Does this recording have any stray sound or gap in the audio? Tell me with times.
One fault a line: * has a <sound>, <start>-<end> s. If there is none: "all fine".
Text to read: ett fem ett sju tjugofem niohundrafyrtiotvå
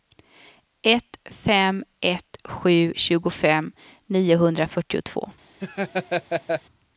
* has a laugh, 5.6-6.6 s